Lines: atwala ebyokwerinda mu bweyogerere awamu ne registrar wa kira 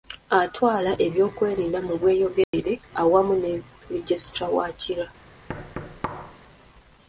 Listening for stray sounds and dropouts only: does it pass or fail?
fail